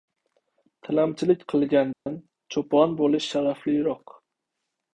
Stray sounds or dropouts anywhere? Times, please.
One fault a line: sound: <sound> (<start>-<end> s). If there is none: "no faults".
sound: dropout (1.9-2.1 s)